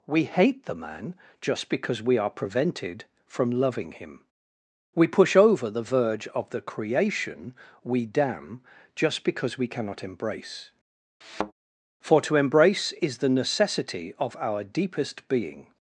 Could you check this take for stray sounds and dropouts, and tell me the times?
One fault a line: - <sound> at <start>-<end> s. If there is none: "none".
- thud at 11.2-11.5 s